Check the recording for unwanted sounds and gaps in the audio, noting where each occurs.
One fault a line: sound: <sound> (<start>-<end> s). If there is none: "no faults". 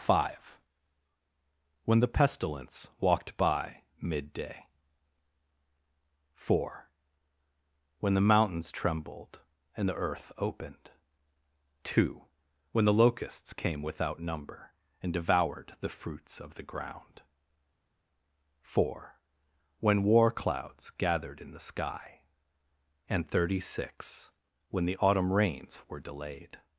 no faults